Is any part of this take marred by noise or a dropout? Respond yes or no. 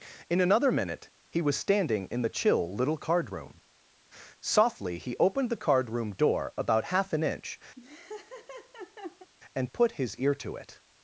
yes